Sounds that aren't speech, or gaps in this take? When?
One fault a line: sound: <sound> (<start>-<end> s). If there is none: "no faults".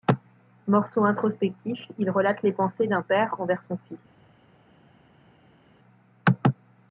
no faults